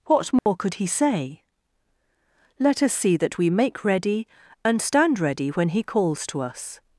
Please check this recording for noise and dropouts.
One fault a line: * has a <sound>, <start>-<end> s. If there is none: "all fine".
* has a dropout, 0.4-0.5 s